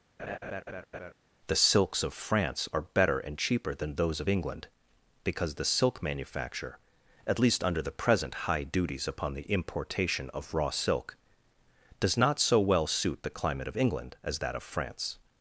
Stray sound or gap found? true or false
true